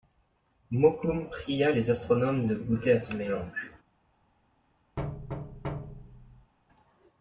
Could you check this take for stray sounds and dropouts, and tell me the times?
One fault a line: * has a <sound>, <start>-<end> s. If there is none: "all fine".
* has a thud, 5.0-6.5 s